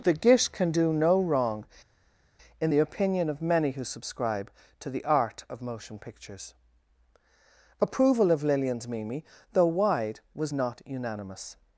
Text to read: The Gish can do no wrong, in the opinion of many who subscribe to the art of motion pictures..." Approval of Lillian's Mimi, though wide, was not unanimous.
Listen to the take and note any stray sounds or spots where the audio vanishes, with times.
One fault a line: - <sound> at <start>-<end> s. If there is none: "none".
none